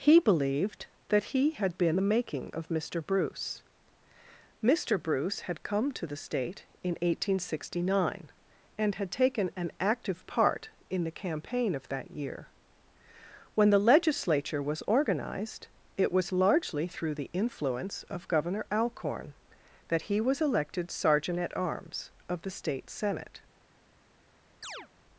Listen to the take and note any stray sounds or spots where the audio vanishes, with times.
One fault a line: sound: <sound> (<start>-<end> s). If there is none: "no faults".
sound: chirp (24.6-24.9 s)